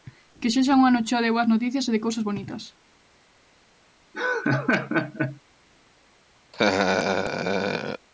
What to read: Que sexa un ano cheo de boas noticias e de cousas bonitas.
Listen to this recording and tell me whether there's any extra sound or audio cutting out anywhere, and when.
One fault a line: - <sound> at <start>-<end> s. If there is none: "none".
- laugh at 4.1-5.4 s
- laugh at 6.5-8.1 s